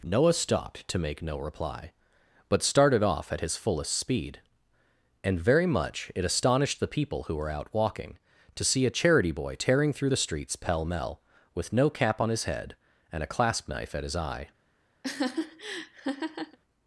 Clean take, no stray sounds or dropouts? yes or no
no